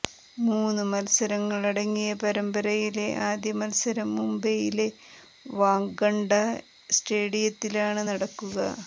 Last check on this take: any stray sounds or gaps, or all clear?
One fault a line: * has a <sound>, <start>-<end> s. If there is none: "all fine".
all fine